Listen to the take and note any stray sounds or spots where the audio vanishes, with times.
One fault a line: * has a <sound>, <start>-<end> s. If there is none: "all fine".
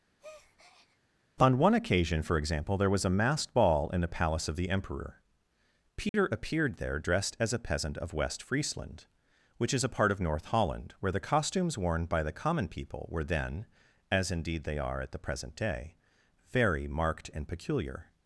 * has a breath, 0.2-1.0 s
* has a dropout, 6.1-6.1 s